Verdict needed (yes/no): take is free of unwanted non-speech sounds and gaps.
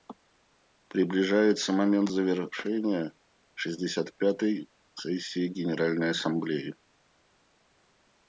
yes